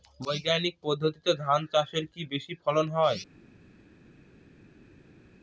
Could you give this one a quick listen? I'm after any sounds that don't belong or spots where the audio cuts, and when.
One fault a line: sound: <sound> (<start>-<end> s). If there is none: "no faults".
no faults